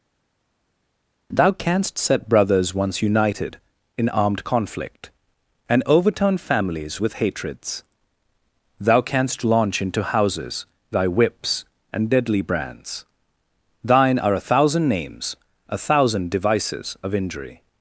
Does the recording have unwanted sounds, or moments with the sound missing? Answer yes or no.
no